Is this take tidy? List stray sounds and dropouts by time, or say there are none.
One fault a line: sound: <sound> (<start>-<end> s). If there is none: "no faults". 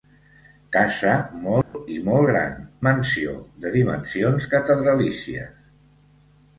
sound: dropout (1.6-1.7 s)